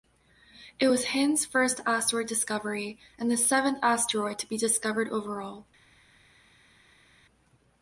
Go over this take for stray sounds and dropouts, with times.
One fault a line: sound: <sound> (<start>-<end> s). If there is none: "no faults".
no faults